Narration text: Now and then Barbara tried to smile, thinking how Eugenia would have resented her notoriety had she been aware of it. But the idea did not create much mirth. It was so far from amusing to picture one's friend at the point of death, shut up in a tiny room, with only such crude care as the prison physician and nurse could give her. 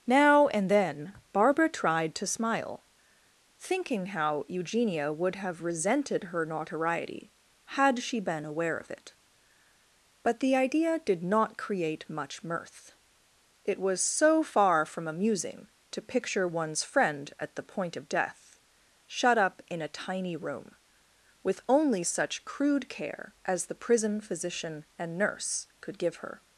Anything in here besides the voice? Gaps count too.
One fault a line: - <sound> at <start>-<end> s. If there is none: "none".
none